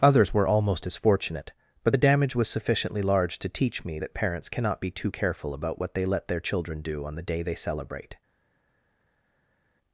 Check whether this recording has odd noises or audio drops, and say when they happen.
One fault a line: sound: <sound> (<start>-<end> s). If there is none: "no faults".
no faults